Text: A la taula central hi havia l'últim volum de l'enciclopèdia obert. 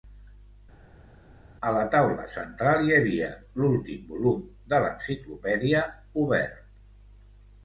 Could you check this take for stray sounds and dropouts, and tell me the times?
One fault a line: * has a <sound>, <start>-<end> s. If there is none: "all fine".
all fine